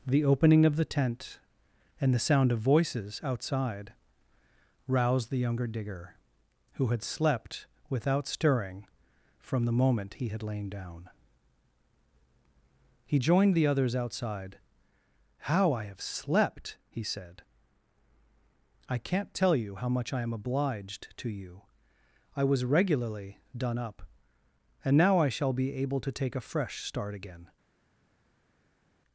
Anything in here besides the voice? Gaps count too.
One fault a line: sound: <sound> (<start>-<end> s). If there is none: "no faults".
no faults